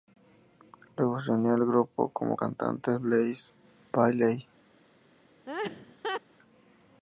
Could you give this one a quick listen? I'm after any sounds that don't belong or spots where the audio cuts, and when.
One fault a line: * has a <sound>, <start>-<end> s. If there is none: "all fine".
* has a laugh, 5.5-6.2 s